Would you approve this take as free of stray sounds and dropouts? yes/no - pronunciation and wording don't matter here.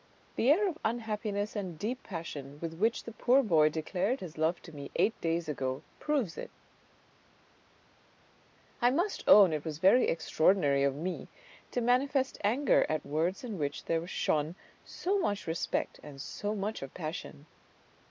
yes